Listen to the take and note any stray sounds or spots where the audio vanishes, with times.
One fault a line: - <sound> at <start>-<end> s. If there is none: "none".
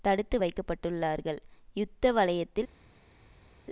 none